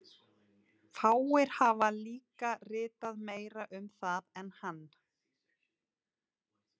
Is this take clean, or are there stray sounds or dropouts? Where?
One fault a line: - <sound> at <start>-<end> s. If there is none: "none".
none